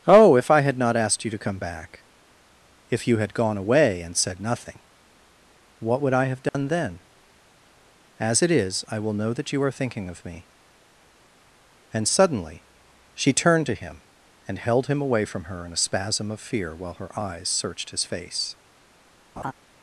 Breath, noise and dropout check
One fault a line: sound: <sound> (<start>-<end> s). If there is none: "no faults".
sound: dropout (6.5-6.5 s)
sound: laugh (19.4-19.5 s)